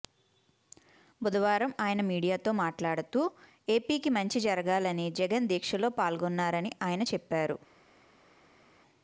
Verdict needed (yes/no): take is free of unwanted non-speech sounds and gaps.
yes